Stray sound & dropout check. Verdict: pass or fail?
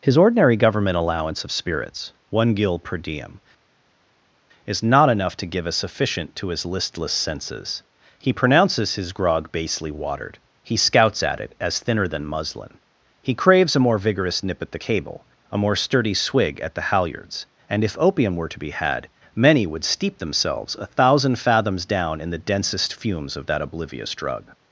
pass